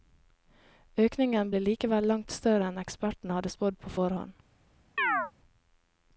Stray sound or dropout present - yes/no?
yes